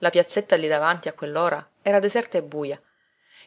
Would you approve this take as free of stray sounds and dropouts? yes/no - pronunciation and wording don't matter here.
yes